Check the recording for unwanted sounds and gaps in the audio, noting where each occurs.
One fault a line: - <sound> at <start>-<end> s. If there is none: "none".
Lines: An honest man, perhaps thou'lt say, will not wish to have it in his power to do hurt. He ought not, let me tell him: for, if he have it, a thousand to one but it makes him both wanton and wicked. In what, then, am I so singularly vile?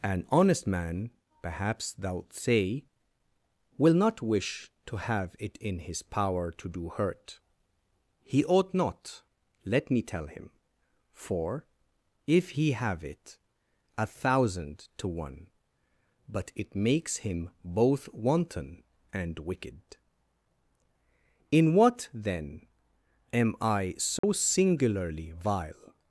- dropout at 24.2-24.2 s